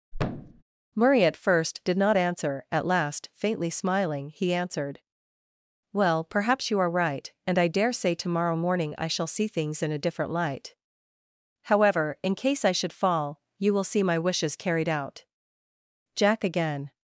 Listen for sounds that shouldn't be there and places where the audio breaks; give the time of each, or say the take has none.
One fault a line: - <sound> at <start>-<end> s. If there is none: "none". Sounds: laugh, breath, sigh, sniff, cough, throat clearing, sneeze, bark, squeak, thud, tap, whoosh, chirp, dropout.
- thud at 0.1-0.6 s